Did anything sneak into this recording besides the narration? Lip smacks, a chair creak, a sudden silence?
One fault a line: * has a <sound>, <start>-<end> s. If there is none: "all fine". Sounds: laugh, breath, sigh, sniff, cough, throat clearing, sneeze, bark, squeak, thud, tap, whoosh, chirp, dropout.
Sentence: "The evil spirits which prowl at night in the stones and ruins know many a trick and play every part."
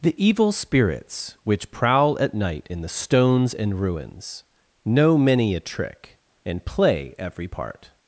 all fine